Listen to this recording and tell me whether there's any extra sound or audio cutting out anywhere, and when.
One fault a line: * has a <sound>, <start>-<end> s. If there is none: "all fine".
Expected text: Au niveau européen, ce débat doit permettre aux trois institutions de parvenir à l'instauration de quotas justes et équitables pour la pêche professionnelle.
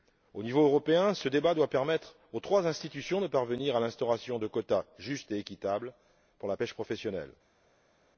all fine